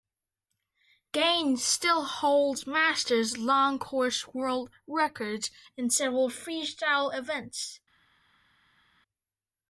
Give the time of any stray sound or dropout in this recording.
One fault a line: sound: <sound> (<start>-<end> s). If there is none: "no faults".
no faults